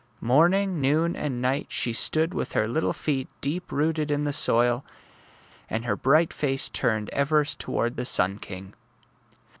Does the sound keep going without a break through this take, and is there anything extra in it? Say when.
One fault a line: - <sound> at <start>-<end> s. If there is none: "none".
none